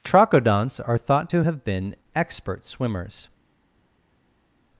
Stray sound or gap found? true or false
false